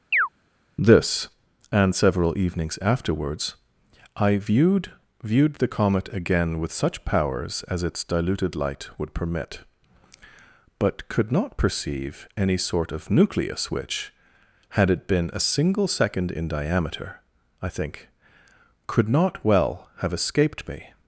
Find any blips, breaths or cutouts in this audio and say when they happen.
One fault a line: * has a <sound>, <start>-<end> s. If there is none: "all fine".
* has a chirp, 0.1-0.3 s